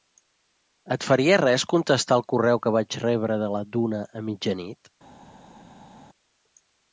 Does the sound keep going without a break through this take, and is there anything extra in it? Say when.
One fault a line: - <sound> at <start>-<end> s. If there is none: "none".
none